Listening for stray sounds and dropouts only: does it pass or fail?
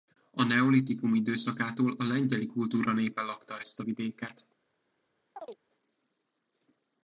fail